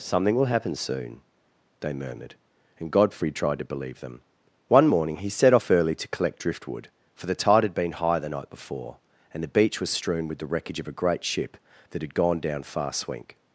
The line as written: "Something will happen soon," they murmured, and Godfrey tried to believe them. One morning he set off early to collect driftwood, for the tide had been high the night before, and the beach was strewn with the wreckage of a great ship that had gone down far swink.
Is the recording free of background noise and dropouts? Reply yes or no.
yes